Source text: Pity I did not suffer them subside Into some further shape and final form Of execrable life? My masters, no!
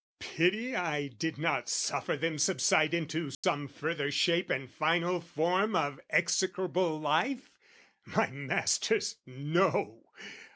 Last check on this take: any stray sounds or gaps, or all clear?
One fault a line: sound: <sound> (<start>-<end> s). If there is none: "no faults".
sound: dropout (3.3-3.4 s)